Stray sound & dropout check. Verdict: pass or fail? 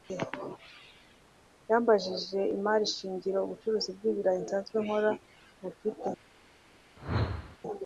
fail